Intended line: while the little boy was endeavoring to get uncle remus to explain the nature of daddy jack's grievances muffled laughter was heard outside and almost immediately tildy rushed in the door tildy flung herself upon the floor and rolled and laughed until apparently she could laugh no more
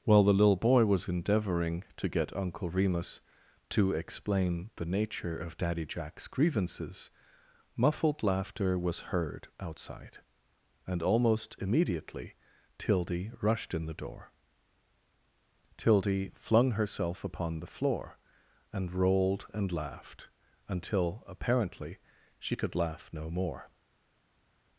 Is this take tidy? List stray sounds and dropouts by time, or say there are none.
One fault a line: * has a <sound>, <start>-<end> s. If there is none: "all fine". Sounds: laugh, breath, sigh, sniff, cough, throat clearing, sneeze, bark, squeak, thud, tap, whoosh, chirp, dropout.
all fine